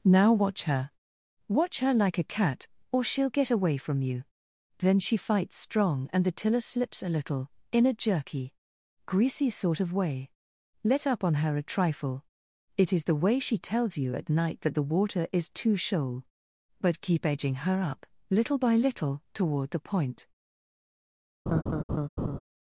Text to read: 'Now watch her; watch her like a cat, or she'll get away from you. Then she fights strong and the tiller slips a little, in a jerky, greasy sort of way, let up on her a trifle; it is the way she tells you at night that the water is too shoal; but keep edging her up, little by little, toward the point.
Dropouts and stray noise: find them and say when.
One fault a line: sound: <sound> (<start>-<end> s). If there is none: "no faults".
sound: laugh (21.5-22.4 s)